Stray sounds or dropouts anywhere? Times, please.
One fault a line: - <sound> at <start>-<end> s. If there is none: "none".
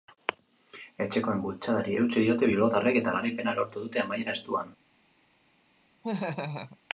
- laugh at 6.0-6.8 s